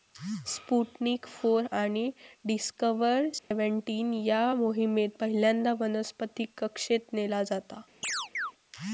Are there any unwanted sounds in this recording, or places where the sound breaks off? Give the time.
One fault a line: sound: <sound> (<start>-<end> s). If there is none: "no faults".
sound: dropout (3.4-3.5 s)
sound: chirp (8.0-8.5 s)